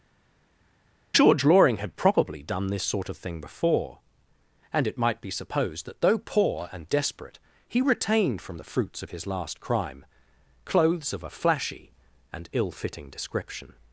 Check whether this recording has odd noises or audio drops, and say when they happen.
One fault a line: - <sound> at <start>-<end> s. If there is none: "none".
none